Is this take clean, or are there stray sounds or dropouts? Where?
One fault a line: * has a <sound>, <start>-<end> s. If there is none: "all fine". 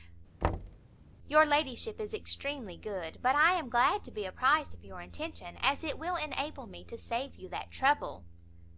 * has a thud, 0.4-0.8 s